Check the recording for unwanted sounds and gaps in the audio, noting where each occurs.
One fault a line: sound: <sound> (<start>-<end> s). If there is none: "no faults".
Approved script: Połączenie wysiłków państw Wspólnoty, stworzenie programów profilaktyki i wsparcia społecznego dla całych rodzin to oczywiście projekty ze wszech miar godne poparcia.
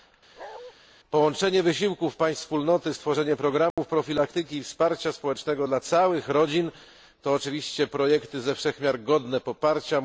sound: bark (0.4-0.7 s)
sound: dropout (3.7-3.8 s)